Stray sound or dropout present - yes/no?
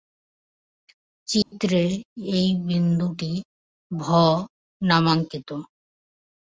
yes